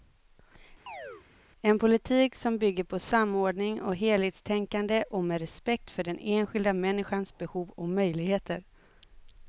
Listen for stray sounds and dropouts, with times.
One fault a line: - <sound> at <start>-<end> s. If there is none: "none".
- chirp at 0.9-1.3 s